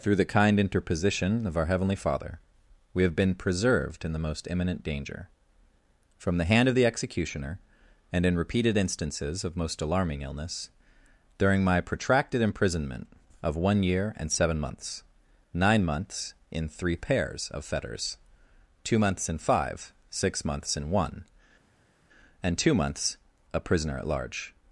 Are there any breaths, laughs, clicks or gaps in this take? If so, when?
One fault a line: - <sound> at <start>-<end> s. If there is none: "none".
none